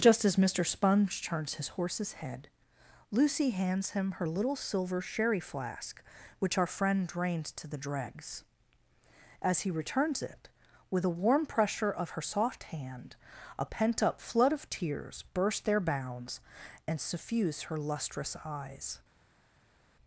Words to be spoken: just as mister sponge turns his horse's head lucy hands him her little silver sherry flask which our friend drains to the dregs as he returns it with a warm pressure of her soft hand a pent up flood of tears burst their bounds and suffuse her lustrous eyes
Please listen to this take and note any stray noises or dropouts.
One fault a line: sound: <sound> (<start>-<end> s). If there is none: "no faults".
no faults